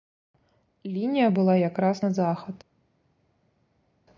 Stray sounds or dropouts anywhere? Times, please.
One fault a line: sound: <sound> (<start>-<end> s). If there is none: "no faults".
no faults